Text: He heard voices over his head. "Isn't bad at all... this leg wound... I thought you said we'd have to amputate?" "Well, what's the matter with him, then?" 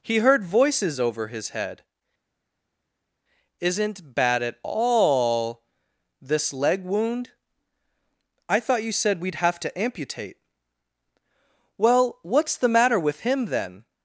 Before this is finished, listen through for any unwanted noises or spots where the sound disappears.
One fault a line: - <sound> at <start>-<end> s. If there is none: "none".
none